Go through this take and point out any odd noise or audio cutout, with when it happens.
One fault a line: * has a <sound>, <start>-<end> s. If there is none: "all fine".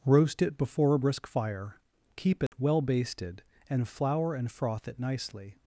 * has a dropout, 2.5-2.5 s